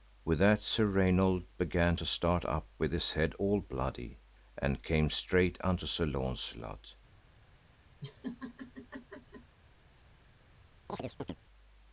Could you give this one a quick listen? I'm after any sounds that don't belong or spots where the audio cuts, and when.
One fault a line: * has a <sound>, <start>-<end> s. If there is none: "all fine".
* has a laugh, 8.0-9.6 s
* has a chirp, 10.9-11.4 s